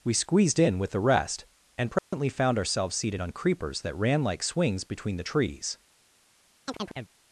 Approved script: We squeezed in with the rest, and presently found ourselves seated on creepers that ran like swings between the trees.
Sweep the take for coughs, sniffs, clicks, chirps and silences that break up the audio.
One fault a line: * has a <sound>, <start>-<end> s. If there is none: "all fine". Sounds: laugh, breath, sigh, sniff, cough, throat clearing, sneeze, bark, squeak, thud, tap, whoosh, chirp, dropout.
* has a dropout, 2.0-2.1 s
* has a chirp, 6.7-7.1 s